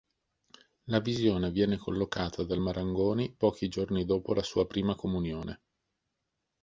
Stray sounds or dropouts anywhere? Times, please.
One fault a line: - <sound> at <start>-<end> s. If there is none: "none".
none